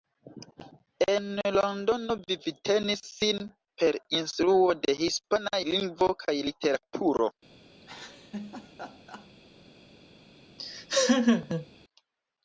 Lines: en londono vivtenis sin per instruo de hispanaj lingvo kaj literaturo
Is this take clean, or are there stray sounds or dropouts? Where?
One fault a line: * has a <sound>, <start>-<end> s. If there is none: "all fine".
* has a laugh, 7.8-9.3 s
* has a laugh, 10.6-11.7 s